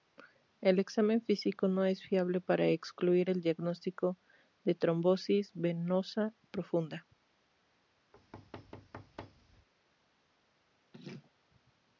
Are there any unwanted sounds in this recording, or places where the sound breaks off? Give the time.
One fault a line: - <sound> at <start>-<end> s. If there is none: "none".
- thud at 8.1-9.7 s
- laugh at 10.9-11.3 s